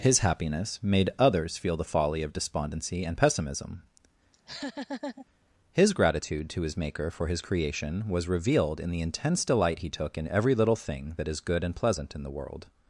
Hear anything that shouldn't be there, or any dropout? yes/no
yes